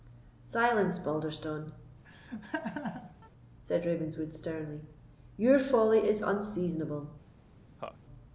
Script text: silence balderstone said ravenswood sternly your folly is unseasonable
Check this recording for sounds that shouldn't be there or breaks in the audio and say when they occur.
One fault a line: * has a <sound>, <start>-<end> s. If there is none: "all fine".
* has a laugh, 2.0-3.3 s
* has a laugh, 7.8-8.0 s